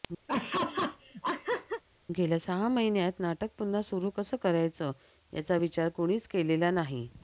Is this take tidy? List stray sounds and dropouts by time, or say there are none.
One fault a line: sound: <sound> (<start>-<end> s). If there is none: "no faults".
sound: laugh (0.3-1.8 s)